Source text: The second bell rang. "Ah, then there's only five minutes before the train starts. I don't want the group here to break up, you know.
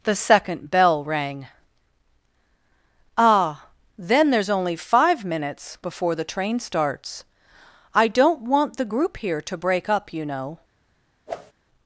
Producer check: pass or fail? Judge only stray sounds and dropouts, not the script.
fail